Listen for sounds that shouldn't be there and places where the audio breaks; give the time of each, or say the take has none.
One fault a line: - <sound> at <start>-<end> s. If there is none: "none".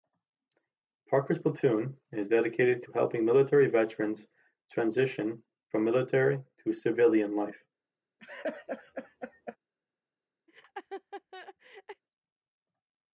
- laugh at 8.2-9.6 s
- laugh at 10.5-12.0 s